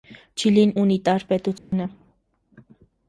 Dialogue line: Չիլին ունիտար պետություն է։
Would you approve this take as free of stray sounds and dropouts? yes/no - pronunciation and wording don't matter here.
no